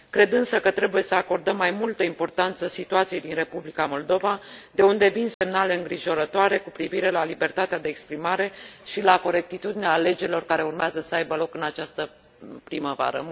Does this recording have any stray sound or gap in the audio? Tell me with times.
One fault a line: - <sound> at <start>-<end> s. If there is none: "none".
- dropout at 5.3-5.4 s